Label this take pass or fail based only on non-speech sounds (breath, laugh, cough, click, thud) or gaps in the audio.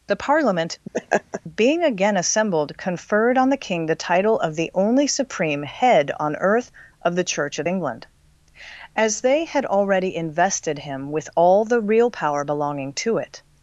fail